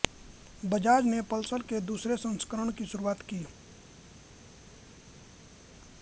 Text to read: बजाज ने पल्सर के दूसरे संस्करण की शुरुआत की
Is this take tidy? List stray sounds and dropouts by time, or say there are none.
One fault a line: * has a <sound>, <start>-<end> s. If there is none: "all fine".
all fine